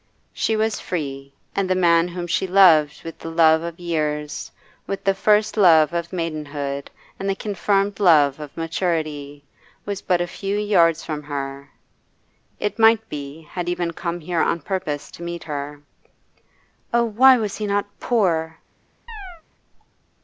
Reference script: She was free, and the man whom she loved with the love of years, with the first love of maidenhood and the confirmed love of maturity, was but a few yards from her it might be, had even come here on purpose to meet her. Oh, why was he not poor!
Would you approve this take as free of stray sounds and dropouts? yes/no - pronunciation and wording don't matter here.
no